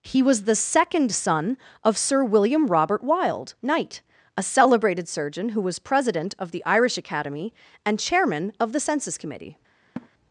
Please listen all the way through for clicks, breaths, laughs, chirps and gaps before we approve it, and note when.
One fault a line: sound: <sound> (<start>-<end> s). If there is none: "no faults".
sound: laugh (10.0-10.1 s)